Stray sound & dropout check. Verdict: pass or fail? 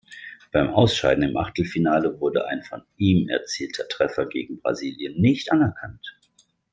pass